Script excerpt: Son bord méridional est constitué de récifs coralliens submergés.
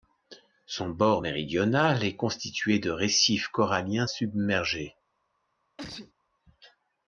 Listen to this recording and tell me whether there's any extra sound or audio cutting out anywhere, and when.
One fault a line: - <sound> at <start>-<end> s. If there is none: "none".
- sneeze at 5.8-6.1 s